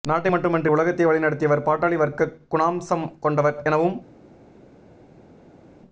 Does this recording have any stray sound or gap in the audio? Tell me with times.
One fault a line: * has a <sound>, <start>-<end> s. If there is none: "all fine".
all fine